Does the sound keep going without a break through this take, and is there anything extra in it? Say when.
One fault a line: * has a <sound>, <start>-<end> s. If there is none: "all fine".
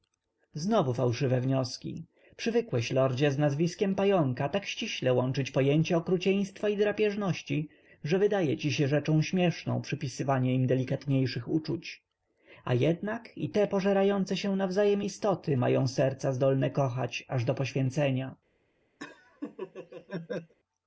* has a laugh, 19.0-20.5 s